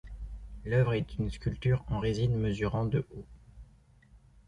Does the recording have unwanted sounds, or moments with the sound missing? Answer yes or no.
no